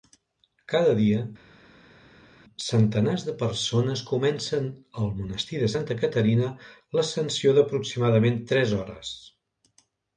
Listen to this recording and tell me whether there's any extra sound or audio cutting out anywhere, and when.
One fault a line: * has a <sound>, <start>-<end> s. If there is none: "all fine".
all fine